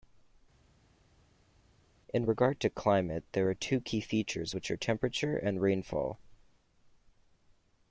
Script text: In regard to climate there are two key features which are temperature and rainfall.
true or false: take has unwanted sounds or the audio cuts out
false